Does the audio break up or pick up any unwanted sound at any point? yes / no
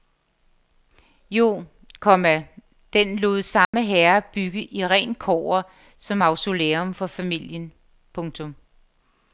yes